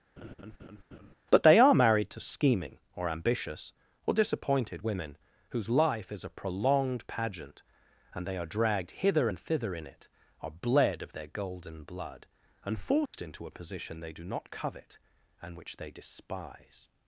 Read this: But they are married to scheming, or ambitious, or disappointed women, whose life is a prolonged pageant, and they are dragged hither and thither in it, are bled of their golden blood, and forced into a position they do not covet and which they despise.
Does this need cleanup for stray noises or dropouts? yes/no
yes